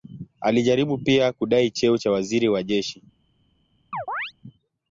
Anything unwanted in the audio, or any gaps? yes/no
yes